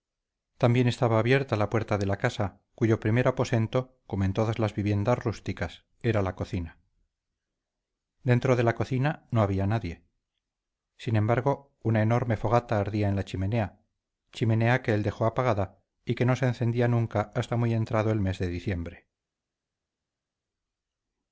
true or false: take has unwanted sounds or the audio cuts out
false